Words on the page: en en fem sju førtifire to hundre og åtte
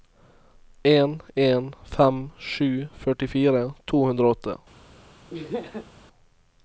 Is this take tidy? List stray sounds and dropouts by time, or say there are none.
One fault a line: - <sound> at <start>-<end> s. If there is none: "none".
- laugh at 5.3-5.9 s